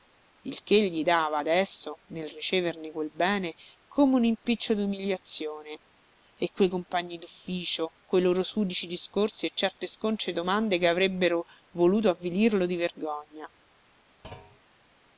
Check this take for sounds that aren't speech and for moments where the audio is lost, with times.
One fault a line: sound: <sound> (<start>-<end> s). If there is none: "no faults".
sound: thud (14.2-14.6 s)